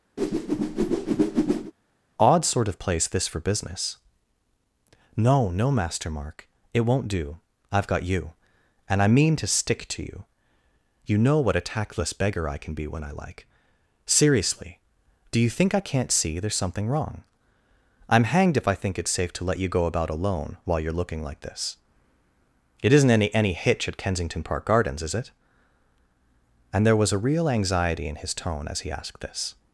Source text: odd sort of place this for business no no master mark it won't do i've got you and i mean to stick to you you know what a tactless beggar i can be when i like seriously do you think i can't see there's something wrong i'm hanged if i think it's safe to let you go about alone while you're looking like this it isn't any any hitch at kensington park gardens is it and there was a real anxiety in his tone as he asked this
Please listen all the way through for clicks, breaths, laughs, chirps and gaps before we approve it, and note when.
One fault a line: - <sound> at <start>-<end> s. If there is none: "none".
- whoosh at 0.2-1.7 s